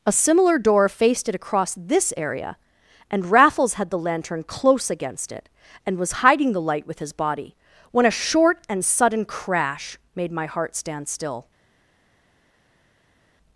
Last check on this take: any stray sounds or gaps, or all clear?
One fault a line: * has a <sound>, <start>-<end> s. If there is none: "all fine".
all fine